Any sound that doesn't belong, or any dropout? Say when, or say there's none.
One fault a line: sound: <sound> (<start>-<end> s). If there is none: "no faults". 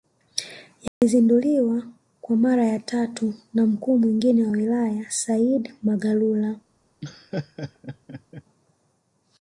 sound: dropout (0.9-1.0 s)
sound: laugh (7.0-8.4 s)